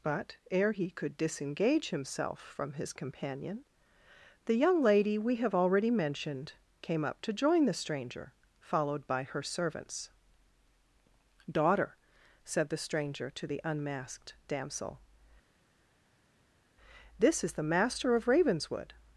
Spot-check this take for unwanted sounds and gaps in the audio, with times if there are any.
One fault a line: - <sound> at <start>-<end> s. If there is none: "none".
none